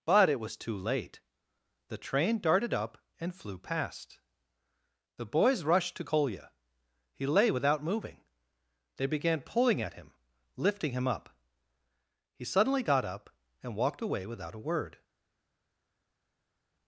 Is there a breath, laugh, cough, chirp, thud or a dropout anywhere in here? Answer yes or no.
no